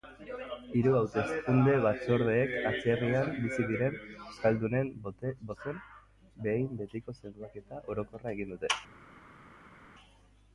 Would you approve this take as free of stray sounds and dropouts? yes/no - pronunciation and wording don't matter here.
yes